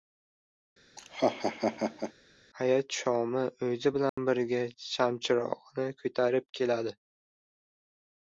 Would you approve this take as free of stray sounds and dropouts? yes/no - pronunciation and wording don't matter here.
no